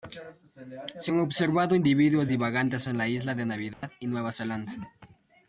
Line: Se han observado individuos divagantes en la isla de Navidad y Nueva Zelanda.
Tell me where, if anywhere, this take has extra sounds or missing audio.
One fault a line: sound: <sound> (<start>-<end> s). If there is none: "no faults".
sound: dropout (3.7-3.8 s)